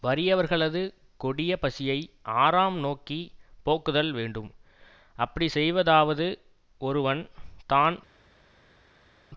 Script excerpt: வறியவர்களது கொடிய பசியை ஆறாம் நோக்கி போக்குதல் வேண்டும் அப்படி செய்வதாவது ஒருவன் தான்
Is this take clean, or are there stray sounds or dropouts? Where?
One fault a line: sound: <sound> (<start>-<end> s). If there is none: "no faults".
no faults